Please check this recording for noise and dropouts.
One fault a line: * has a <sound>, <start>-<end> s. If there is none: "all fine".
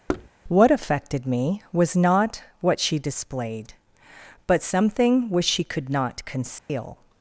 * has a thud, 0.1-0.3 s
* has a dropout, 6.6-6.7 s